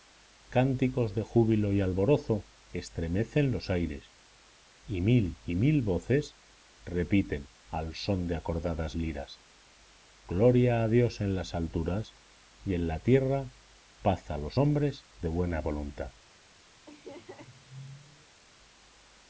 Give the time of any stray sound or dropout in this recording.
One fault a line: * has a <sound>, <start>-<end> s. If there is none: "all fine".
* has a laugh, 16.9-18.4 s